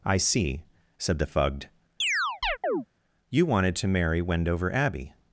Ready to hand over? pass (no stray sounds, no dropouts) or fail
fail